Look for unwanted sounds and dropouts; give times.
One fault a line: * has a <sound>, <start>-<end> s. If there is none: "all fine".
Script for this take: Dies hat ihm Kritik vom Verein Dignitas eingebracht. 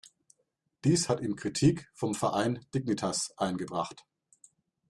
all fine